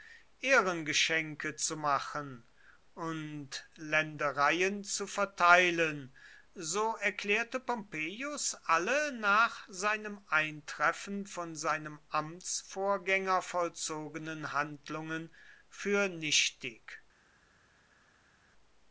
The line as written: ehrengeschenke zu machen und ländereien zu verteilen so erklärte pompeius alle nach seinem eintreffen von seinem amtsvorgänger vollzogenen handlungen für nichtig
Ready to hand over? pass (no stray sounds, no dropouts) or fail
pass